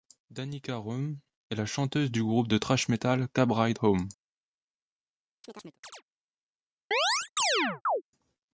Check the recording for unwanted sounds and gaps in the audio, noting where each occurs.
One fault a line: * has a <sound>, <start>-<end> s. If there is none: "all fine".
* has a chirp, 5.4-6.0 s
* has a chirp, 6.9-8.0 s